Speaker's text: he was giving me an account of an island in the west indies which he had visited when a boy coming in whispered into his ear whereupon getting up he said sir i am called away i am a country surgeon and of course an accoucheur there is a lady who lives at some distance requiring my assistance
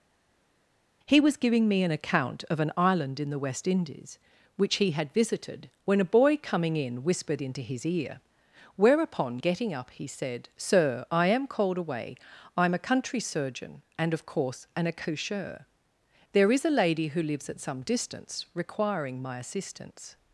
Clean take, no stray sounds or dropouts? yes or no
yes